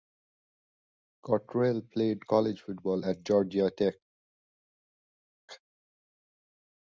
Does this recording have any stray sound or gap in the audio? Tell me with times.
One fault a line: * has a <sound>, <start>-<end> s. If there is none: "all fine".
all fine